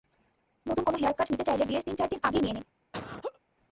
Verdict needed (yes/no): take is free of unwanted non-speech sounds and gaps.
no